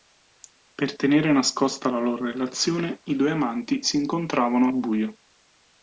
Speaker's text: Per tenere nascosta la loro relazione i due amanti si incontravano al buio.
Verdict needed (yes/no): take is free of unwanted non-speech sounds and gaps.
yes